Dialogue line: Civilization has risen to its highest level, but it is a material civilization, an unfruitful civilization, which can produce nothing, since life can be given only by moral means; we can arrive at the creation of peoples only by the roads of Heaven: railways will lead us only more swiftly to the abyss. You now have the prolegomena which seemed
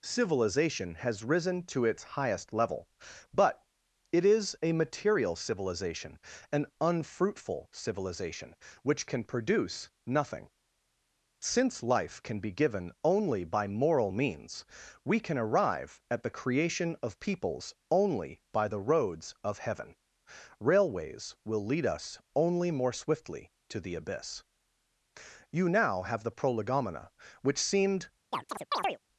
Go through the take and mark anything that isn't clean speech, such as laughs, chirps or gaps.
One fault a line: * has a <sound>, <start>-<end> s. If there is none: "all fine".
* has a chirp, 28.3-29.0 s